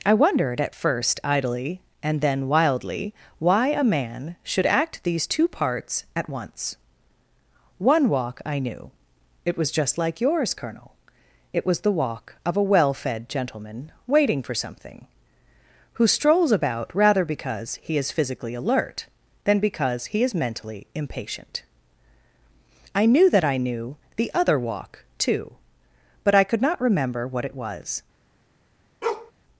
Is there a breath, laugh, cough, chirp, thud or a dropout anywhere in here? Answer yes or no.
yes